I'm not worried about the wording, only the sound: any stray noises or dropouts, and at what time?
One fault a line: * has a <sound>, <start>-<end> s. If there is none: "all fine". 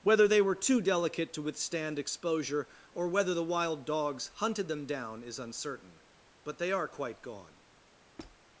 * has a squeak, 8.2-8.4 s